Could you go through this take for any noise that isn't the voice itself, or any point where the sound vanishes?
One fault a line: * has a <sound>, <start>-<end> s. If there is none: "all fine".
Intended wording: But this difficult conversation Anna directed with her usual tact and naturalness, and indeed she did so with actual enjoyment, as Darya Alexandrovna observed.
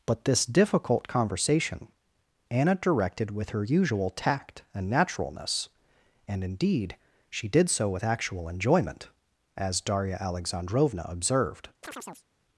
* has a chirp, 11.8-12.3 s